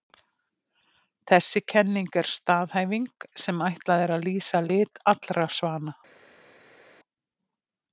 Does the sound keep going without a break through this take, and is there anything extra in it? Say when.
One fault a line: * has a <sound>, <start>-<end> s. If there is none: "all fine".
all fine